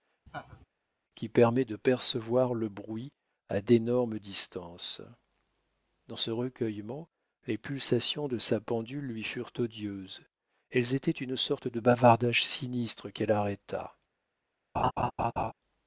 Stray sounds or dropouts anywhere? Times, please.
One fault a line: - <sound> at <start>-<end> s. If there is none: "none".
- laugh at 0.3-0.7 s
- laugh at 14.7-15.5 s